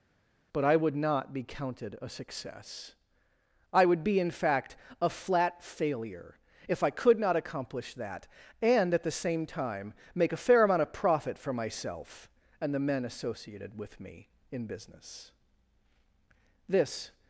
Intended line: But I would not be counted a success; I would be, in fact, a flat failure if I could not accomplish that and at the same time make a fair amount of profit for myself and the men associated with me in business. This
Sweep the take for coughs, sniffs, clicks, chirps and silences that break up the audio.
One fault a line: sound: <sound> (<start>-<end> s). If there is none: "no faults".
no faults